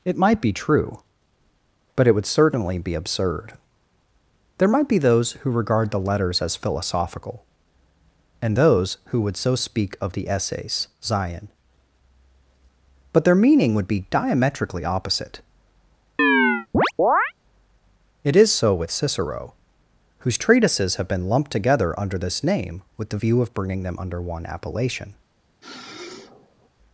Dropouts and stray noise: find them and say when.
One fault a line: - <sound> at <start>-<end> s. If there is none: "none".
- chirp at 16.2-17.3 s
- sniff at 25.6-26.7 s